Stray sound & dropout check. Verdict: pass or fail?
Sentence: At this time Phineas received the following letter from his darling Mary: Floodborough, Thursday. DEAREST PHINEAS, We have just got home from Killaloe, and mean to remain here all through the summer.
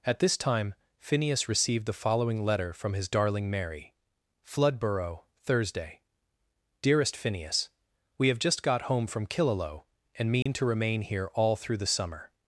fail